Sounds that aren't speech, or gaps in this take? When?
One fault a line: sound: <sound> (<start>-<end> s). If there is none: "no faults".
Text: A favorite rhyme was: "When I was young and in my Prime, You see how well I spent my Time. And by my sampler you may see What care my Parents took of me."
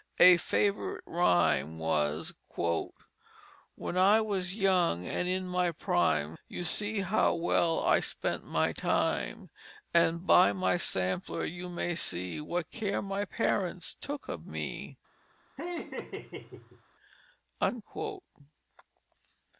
sound: laugh (15.6-16.8 s)